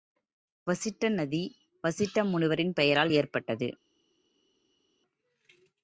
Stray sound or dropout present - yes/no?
no